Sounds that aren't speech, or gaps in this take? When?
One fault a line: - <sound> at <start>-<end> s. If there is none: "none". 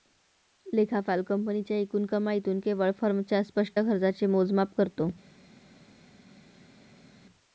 none